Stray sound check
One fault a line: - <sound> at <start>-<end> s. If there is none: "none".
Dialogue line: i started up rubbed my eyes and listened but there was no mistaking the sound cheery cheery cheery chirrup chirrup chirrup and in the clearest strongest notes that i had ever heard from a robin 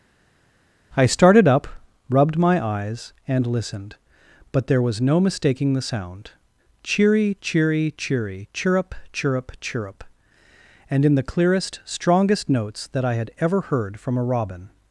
none